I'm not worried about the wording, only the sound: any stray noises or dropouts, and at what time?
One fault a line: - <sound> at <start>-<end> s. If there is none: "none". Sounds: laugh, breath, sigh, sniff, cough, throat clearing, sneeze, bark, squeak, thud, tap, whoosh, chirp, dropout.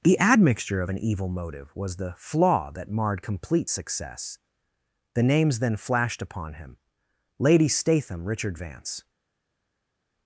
none